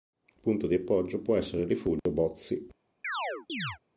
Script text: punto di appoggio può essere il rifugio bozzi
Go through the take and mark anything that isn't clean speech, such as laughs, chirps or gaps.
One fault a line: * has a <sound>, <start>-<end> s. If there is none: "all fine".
* has a dropout, 2.0-2.1 s
* has a chirp, 3.0-3.8 s